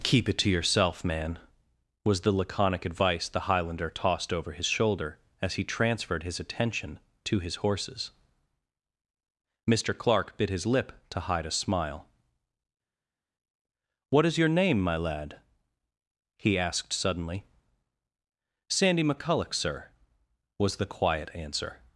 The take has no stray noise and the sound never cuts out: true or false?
true